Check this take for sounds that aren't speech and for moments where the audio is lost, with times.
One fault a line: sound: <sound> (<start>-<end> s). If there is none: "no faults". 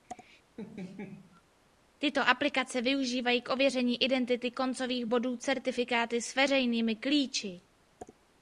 sound: laugh (0.6-1.4 s)